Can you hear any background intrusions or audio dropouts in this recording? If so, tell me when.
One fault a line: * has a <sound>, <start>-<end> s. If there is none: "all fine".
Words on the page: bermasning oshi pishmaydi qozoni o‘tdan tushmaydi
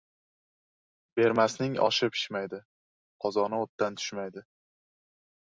all fine